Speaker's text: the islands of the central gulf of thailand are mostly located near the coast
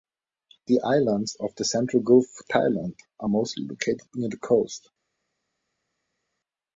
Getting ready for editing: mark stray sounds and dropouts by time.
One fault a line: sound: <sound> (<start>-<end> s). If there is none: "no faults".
no faults